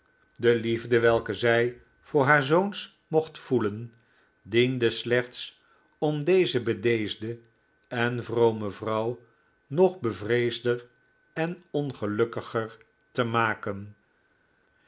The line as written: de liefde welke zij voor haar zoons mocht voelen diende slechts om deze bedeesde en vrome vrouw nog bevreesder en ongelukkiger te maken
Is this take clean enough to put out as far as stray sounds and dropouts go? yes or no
yes